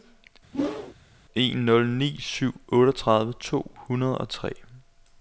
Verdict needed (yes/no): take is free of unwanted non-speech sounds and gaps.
no